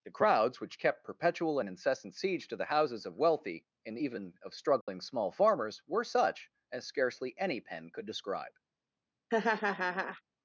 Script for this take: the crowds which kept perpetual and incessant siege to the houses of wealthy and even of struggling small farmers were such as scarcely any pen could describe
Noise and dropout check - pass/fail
fail